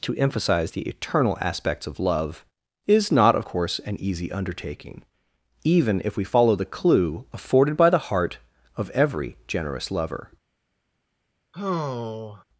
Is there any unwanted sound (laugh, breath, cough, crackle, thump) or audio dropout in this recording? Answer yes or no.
yes